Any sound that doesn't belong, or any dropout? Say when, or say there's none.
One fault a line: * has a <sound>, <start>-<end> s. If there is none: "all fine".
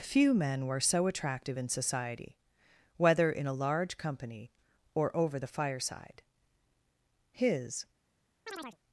* has a chirp, 8.5-8.8 s